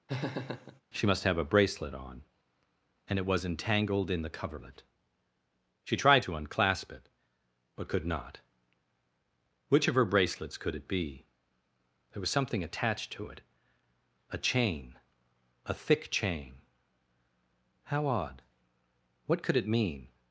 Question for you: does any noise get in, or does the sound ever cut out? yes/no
yes